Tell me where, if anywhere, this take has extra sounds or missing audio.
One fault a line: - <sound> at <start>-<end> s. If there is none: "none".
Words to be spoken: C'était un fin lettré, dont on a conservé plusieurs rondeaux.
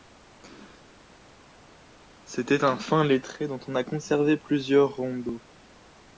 none